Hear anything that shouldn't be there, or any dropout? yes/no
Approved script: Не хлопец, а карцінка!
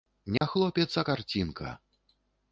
yes